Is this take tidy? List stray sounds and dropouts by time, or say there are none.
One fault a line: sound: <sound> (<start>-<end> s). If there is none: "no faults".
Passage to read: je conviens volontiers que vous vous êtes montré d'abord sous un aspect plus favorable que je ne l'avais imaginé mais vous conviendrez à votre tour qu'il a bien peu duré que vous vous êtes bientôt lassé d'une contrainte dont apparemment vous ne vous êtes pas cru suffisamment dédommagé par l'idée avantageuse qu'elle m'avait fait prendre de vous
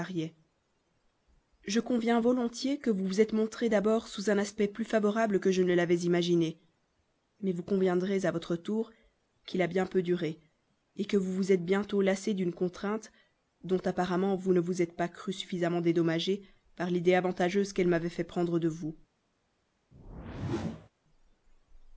sound: whoosh (19.9-20.9 s)